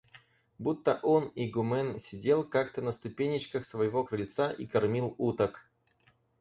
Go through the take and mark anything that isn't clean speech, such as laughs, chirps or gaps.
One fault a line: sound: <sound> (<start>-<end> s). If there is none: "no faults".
no faults